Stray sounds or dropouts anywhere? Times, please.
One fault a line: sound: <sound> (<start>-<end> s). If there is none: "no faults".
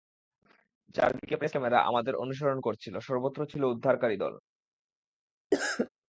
sound: cough (5.5-5.9 s)